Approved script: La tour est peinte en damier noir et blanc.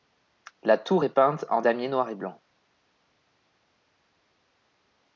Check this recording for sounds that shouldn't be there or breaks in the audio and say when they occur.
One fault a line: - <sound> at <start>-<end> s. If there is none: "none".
none